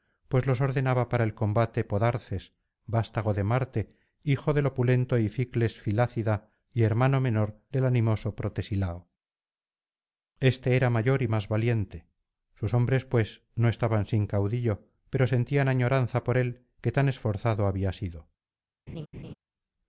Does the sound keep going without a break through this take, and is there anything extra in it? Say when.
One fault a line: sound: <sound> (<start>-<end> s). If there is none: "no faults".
sound: laugh (18.9-19.3 s)